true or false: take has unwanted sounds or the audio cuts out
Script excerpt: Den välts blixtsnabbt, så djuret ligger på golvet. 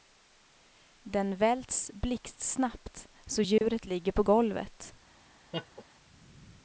true